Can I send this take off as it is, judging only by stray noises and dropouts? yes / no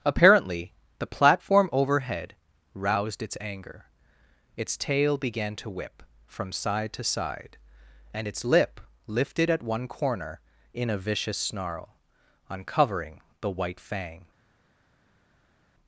yes